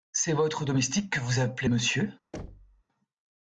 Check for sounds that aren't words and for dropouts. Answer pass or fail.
fail